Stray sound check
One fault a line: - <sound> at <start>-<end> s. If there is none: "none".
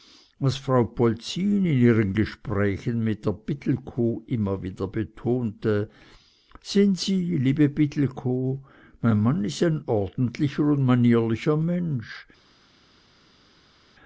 none